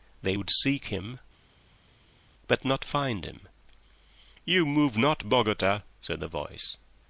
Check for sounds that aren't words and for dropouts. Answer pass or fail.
pass